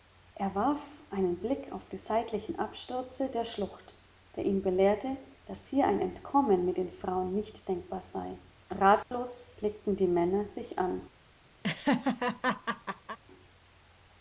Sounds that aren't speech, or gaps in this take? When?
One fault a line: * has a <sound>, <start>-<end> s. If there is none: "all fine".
* has a dropout, 9.0-9.1 s
* has a laugh, 11.6-13.2 s